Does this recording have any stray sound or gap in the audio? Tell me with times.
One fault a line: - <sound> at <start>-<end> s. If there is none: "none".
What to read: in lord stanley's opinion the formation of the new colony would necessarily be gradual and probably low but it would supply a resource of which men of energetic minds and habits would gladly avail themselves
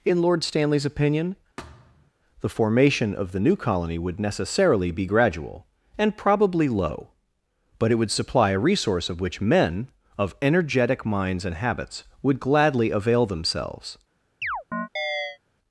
- thud at 1.6-2.1 s
- chirp at 14.4-15.4 s